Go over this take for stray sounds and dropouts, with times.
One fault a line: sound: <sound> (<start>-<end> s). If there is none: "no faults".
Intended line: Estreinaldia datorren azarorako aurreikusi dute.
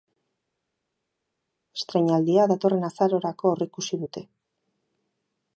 no faults